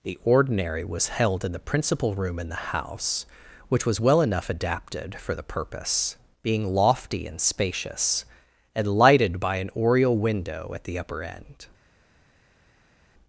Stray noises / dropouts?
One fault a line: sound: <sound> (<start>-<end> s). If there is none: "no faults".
no faults